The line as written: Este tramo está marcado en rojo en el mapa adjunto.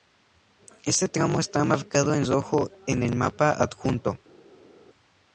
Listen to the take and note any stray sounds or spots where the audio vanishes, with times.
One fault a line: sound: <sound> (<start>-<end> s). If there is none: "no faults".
no faults